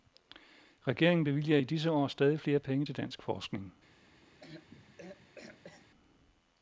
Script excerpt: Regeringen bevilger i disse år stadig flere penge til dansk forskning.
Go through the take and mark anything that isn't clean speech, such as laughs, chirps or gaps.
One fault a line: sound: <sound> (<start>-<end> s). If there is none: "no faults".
sound: throat clearing (4.4-5.9 s)